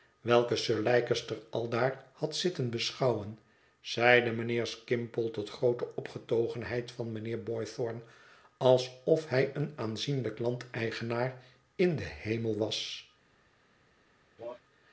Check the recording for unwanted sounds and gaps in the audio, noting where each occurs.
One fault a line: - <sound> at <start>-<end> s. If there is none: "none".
- cough at 14.4-14.6 s